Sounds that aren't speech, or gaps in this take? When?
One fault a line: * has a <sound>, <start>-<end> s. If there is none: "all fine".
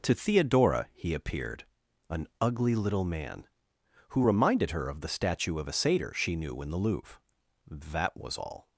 all fine